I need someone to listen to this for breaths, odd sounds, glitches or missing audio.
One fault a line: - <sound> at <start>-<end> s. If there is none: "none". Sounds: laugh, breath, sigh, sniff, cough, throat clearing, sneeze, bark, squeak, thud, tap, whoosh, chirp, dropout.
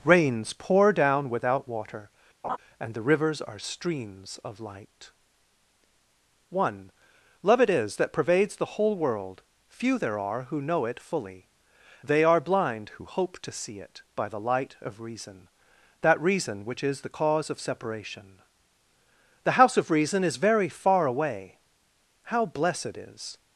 - laugh at 2.4-2.6 s